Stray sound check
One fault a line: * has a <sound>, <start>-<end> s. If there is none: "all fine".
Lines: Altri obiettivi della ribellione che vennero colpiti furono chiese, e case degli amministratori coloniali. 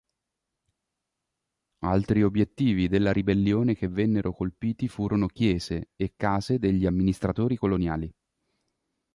all fine